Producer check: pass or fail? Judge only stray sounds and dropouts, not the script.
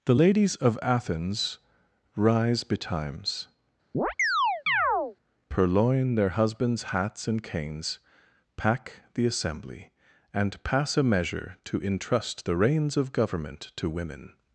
fail